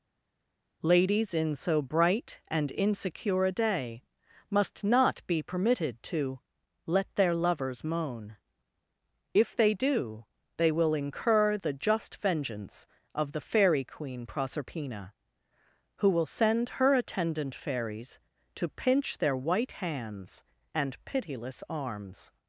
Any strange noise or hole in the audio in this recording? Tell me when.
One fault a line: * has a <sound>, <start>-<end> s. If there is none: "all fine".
all fine